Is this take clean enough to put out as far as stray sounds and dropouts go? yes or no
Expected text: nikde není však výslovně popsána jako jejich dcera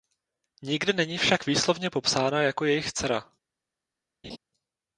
no